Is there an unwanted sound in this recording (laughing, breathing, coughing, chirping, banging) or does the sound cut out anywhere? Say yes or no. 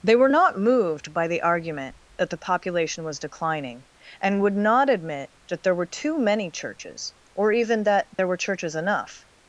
yes